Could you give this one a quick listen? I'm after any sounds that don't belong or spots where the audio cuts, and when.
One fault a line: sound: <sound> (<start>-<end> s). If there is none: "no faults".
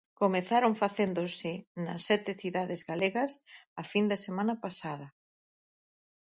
no faults